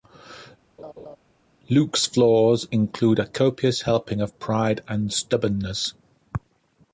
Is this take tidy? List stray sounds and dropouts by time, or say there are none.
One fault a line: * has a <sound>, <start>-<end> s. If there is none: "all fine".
* has a laugh, 0.8-1.2 s